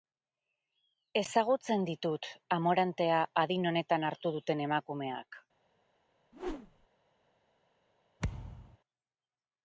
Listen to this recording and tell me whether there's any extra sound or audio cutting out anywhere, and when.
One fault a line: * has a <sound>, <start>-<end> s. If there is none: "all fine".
* has a whoosh, 6.3-6.9 s
* has a thud, 8.2-8.8 s